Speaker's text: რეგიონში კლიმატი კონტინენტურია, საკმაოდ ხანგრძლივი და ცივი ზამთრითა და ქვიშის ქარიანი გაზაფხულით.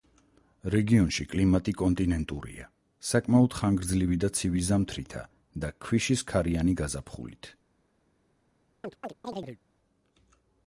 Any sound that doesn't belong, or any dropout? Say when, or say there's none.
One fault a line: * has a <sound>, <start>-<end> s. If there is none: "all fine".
* has a chirp, 8.8-9.6 s